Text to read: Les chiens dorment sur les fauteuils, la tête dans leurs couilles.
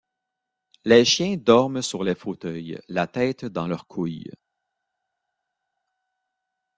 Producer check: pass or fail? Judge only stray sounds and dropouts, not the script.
pass